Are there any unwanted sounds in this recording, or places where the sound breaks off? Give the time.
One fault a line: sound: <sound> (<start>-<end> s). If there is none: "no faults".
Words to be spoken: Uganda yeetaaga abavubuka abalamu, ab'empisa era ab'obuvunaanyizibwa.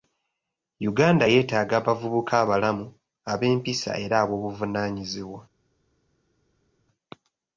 no faults